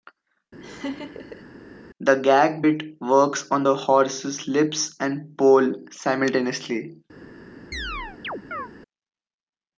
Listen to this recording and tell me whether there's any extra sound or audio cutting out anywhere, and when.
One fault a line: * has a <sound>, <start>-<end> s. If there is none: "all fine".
* has a laugh, 0.6-1.5 s
* has a chirp, 7.7-8.7 s